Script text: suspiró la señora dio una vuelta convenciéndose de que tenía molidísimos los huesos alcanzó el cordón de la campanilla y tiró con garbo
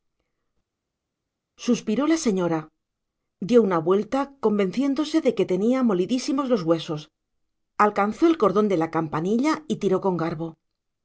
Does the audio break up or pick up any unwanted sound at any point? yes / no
no